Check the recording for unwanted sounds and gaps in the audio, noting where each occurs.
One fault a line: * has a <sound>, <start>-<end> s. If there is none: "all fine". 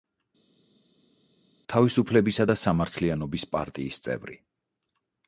all fine